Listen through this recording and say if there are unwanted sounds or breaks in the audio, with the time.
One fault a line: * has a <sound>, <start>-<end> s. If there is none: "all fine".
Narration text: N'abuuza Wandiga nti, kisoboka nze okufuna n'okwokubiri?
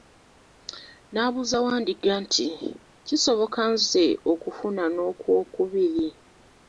all fine